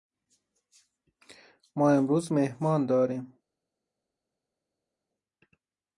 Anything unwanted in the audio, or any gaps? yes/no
no